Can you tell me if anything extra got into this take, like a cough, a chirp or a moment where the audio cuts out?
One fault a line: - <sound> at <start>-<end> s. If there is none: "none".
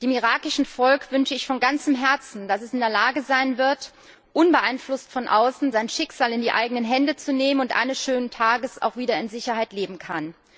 none